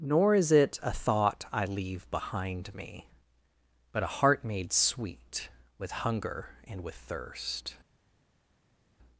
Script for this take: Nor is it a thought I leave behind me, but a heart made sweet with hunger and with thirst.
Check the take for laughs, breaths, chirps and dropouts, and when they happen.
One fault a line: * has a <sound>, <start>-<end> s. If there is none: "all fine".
all fine